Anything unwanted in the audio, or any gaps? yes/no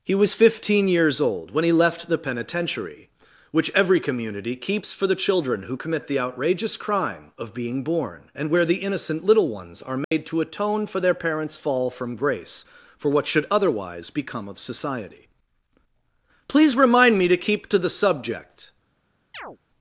yes